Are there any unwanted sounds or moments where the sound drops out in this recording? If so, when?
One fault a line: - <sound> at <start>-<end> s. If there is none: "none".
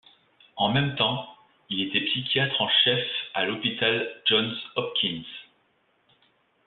none